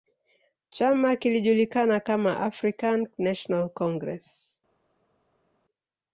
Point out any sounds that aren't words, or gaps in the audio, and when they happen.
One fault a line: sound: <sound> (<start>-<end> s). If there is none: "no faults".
no faults